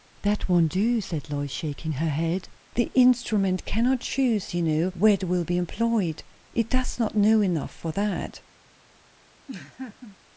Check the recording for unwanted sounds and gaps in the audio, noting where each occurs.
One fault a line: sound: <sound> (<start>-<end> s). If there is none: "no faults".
sound: laugh (9.5-10.2 s)